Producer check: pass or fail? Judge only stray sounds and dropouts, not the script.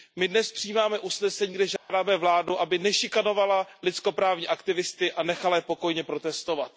fail